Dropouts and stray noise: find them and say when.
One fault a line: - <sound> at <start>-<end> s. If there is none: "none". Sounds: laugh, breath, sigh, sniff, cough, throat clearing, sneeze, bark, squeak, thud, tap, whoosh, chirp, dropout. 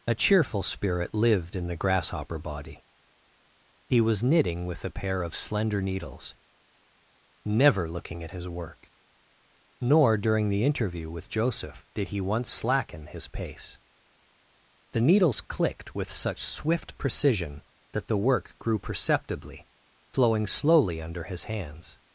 none